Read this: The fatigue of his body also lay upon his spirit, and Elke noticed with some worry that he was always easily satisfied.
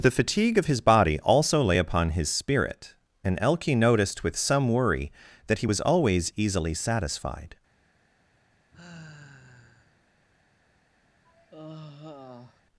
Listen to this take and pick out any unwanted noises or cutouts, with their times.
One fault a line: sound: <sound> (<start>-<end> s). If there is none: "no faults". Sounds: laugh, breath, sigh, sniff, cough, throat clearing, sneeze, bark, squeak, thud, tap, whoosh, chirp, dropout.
sound: sigh (8.7-10.0 s)
sound: sigh (11.2-12.6 s)